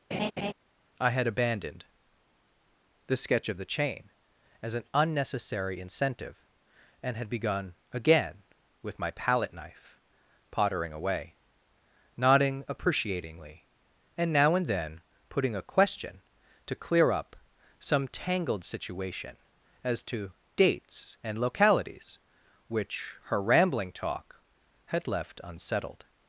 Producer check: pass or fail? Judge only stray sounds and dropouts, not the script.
fail